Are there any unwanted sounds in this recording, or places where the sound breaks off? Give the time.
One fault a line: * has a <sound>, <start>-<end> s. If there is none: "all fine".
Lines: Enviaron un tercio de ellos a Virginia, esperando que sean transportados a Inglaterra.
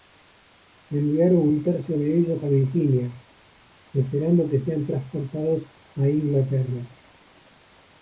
all fine